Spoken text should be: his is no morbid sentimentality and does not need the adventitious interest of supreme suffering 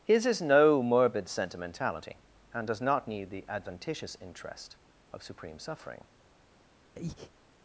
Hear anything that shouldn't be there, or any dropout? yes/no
yes